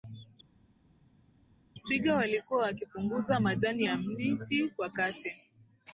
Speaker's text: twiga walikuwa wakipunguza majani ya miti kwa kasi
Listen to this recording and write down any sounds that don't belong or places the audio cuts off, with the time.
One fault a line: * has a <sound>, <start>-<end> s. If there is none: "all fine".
all fine